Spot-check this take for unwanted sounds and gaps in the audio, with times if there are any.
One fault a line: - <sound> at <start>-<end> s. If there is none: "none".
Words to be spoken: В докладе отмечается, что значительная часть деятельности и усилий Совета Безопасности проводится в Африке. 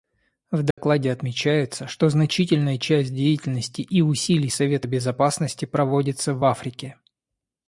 - dropout at 0.7-0.8 s